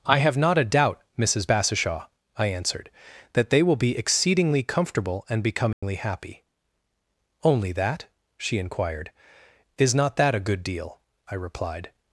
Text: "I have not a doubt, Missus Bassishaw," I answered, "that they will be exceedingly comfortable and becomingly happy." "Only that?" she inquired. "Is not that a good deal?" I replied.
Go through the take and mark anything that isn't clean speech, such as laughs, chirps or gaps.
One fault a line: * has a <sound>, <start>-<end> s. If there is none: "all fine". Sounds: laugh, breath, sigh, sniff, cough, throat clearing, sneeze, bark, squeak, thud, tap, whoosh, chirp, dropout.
* has a dropout, 5.7-5.8 s